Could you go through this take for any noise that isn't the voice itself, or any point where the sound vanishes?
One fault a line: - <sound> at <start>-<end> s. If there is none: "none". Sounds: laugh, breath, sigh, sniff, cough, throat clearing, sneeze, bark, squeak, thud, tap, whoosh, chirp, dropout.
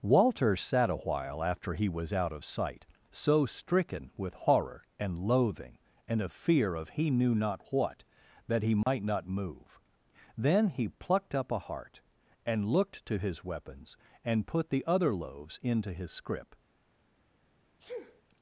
- dropout at 8.8-8.9 s
- sneeze at 17.8-18.2 s